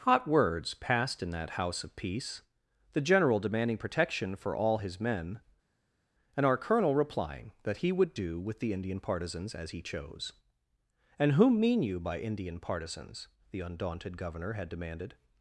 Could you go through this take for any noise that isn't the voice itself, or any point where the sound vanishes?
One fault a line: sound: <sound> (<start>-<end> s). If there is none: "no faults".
no faults